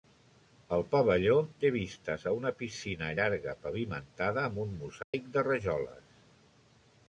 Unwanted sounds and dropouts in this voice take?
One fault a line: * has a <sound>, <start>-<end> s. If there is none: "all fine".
* has a dropout, 5.0-5.1 s